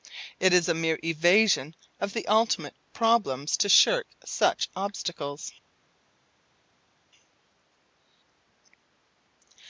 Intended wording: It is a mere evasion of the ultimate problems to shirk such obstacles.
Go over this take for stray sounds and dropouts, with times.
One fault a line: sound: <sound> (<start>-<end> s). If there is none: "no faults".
no faults